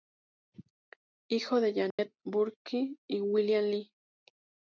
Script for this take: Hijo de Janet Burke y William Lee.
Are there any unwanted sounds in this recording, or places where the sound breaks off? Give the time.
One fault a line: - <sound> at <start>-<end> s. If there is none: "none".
- dropout at 1.9-2.0 s